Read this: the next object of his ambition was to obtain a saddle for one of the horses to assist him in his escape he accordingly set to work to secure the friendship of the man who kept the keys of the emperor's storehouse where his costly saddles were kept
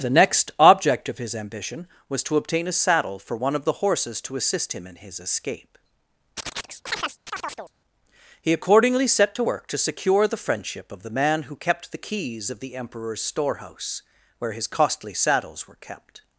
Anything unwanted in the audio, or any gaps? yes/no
yes